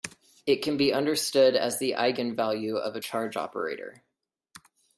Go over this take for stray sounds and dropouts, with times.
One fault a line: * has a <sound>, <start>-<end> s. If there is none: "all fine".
all fine